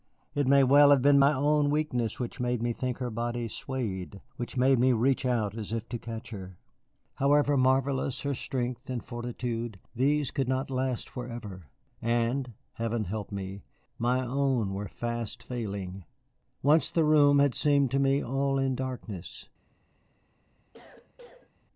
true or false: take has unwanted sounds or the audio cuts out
true